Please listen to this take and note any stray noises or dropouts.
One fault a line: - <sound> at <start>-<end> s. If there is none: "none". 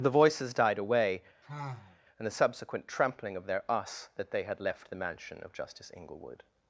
- sigh at 1.4-2.0 s